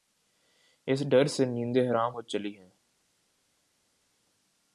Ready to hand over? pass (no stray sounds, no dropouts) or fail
pass